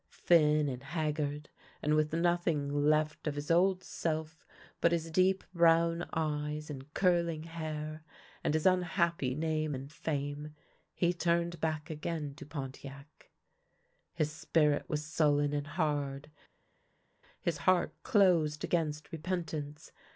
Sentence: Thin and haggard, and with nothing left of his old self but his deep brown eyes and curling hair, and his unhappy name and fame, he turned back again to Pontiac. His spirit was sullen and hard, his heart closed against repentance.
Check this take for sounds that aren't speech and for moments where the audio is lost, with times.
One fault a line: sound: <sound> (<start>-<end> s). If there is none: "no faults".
no faults